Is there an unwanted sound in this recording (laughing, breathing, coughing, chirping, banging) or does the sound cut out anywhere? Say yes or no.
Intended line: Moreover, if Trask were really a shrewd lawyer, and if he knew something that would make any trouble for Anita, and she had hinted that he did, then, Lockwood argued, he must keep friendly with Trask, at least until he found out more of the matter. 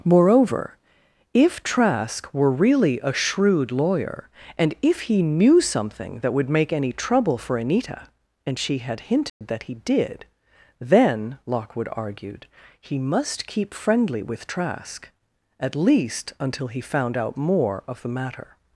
yes